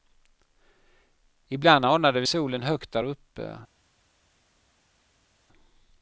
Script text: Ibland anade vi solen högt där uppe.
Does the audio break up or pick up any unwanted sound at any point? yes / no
no